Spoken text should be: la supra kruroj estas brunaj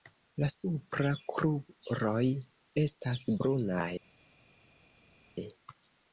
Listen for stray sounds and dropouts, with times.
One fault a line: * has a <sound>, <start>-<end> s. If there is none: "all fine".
all fine